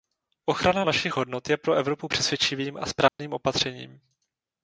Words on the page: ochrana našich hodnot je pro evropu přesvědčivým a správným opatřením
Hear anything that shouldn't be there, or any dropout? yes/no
yes